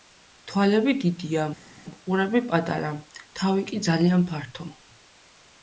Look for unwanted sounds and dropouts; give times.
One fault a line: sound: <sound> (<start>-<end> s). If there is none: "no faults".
no faults